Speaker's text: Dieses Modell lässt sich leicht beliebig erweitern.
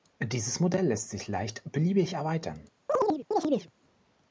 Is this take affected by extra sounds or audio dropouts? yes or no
yes